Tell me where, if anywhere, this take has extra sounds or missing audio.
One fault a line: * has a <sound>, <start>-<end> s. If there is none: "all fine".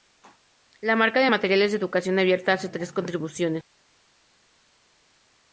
all fine